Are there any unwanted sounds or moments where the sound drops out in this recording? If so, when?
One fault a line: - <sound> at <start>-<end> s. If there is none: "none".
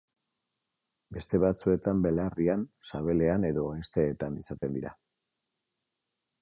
- dropout at 4.6-4.6 s